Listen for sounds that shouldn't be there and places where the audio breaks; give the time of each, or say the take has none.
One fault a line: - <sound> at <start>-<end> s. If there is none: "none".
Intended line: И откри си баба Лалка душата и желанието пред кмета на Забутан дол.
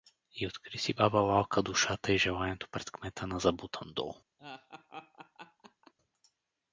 - laugh at 4.4-5.9 s